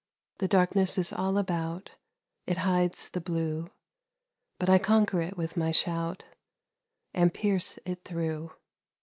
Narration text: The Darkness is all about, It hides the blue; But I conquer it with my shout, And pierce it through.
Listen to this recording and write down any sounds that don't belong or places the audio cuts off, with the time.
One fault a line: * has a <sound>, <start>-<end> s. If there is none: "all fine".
all fine